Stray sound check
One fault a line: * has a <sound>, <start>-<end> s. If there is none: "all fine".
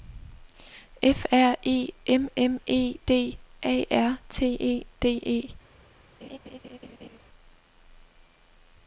* has a laugh, 6.2-7.2 s